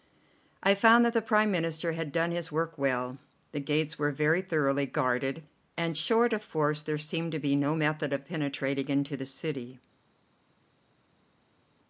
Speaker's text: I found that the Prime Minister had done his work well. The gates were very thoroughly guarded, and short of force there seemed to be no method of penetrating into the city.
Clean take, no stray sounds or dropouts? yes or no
yes